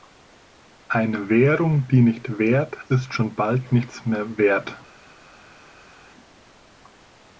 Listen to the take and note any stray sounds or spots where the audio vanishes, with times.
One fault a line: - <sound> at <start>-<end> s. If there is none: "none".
none